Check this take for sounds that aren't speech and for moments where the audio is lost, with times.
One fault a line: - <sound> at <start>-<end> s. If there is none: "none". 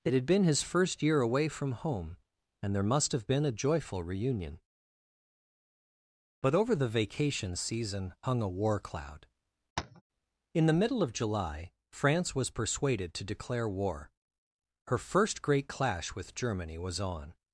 - tap at 9.8-10.0 s